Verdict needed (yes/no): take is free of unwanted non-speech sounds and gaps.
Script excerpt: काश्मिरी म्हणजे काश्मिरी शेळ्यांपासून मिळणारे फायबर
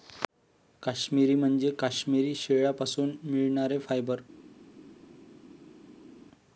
yes